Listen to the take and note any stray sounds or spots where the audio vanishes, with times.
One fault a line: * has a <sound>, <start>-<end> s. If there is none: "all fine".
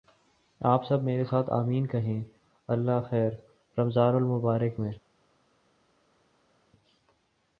all fine